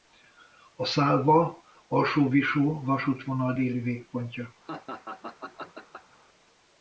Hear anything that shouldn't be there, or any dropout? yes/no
yes